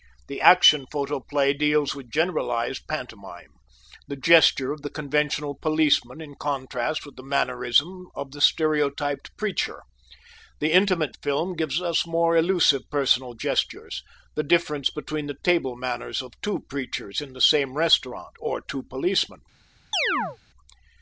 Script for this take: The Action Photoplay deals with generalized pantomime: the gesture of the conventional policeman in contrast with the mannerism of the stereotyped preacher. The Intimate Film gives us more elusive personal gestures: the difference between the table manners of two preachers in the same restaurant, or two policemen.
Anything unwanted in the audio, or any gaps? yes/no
yes